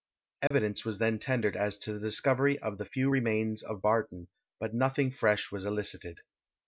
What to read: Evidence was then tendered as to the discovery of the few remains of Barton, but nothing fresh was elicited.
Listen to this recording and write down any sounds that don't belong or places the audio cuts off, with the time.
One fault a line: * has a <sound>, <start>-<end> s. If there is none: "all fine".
* has a dropout, 0.5-0.5 s